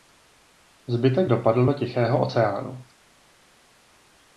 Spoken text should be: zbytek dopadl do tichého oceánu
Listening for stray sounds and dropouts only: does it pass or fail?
pass